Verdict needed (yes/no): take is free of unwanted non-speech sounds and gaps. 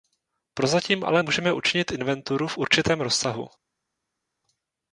yes